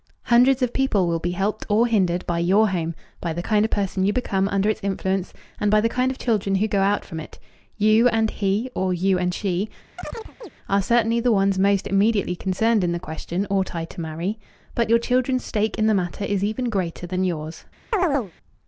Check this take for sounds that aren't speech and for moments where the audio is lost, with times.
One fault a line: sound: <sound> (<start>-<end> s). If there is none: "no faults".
sound: chirp (10.0-10.5 s)
sound: chirp (17.9-18.3 s)